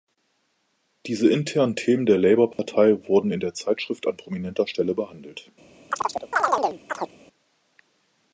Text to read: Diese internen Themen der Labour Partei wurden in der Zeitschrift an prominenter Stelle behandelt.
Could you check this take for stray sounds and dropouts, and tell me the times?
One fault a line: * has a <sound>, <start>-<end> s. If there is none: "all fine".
* has a dropout, 2.5-2.6 s
* has a chirp, 5.9-7.1 s